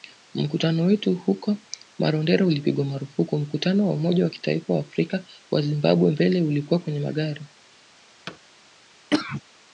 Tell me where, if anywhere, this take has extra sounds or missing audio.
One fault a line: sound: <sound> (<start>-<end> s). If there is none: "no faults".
sound: thud (8.3-8.4 s)
sound: cough (9.1-9.4 s)